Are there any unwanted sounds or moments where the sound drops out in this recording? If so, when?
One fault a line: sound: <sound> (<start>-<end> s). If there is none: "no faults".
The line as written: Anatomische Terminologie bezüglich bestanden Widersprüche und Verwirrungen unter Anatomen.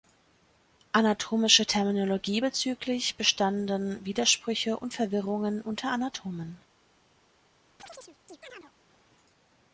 sound: chirp (7.8-8.7 s)